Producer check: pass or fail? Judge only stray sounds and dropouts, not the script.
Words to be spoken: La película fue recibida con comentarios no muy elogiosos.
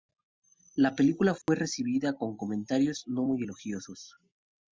fail